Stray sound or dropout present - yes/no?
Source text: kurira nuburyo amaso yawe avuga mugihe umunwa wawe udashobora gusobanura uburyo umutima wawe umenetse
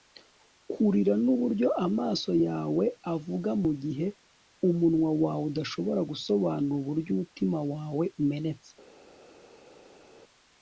no